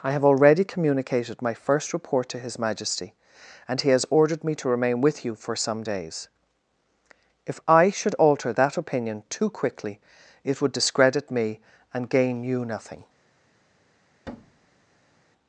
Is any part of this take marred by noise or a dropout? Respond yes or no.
yes